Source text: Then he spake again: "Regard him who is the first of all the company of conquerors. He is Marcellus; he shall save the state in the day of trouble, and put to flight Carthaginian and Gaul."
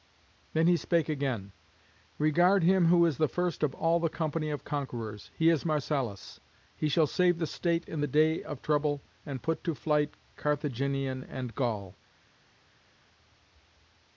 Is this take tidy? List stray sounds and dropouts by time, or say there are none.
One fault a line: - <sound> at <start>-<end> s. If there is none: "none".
none